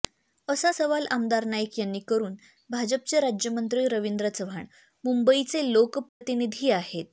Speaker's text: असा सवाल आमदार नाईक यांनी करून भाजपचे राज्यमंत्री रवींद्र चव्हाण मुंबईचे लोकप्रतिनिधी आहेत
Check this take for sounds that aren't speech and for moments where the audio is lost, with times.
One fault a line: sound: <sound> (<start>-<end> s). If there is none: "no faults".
sound: dropout (6.1-6.2 s)